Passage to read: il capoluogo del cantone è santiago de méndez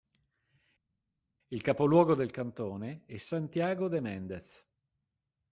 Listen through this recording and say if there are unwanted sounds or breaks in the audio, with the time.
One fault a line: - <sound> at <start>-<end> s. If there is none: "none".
none